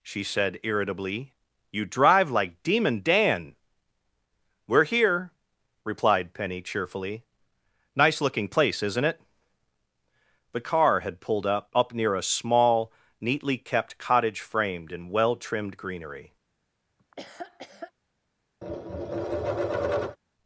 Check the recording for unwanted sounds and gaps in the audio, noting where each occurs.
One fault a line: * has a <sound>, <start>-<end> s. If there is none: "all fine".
* has a laugh, 17.0-17.9 s
* has a tap, 18.6-20.2 s